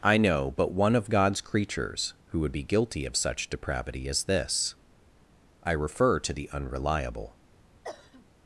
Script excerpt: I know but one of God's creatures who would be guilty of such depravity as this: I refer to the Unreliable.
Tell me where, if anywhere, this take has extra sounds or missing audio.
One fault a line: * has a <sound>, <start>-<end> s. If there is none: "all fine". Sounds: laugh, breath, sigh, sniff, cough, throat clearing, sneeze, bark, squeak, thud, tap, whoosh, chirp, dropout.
* has a cough, 7.8-8.3 s